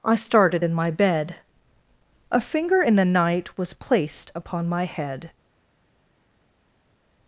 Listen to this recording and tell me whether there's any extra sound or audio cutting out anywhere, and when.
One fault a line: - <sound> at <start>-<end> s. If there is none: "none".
none